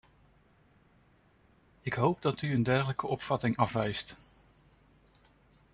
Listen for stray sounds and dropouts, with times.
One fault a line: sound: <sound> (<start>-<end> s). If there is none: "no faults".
no faults